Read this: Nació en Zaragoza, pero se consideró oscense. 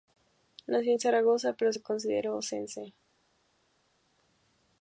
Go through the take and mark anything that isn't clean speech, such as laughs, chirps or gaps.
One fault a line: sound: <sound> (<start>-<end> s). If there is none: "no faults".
no faults